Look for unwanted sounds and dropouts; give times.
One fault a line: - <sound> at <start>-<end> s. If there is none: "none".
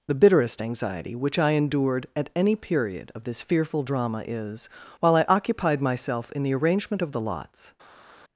none